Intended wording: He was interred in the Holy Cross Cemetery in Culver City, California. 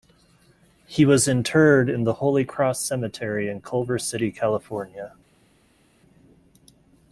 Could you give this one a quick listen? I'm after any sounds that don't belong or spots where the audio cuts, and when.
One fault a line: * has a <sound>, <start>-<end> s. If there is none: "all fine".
all fine